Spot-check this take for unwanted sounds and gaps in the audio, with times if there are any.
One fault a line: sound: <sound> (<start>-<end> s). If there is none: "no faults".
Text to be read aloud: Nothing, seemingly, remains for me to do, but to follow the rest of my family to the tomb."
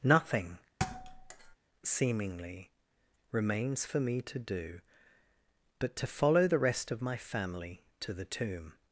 sound: thud (0.8-1.6 s)